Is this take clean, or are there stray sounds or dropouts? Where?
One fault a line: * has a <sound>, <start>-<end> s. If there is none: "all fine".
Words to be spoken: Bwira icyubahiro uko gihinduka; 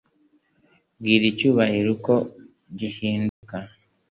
* has a dropout, 3.3-3.4 s